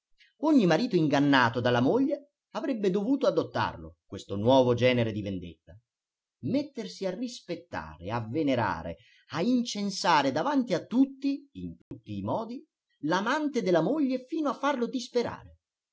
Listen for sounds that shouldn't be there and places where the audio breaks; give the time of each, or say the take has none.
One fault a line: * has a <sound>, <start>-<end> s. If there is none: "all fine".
* has a dropout, 11.8-11.9 s